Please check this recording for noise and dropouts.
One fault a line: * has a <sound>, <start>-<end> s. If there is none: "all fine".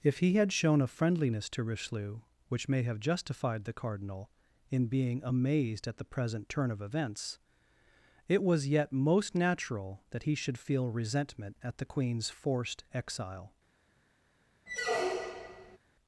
* has a squeak, 14.7-15.8 s